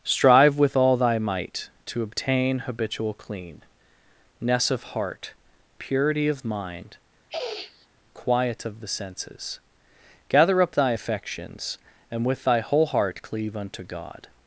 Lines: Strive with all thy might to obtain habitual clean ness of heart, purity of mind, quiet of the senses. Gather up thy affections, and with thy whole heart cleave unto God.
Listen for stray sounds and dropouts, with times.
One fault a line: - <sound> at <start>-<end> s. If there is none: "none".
- sniff at 7.3-7.9 s